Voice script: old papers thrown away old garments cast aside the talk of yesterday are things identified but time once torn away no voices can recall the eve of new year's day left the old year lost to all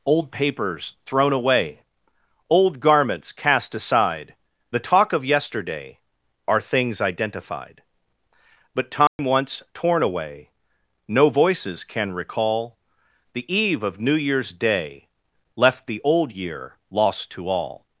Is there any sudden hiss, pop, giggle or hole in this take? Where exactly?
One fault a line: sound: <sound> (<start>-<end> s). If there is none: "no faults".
sound: dropout (9.1-9.2 s)